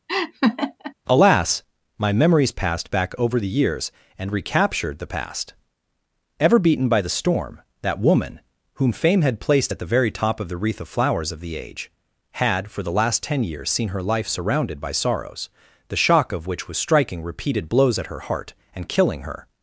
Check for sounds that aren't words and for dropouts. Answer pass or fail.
fail